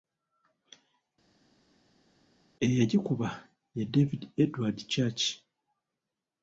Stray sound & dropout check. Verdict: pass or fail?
pass